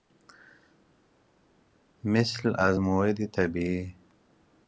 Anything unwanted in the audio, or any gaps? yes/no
no